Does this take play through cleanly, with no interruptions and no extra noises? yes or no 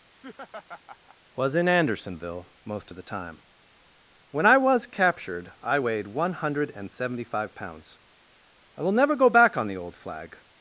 no